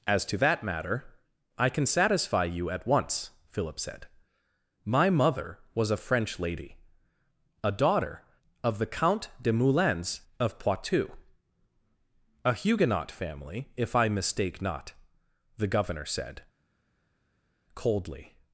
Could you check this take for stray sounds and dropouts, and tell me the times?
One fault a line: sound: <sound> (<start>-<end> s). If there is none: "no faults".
no faults